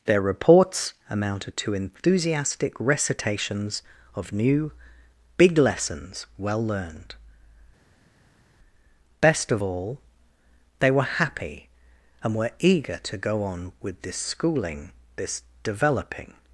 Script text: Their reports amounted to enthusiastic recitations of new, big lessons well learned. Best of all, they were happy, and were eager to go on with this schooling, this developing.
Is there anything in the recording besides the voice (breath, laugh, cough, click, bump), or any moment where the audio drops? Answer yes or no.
no